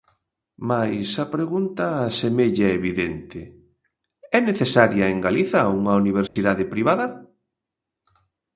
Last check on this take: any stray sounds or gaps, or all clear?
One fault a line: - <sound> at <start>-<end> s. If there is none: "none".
- dropout at 6.3-6.4 s